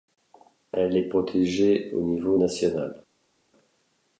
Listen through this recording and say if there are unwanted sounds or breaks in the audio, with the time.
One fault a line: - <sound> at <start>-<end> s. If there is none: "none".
none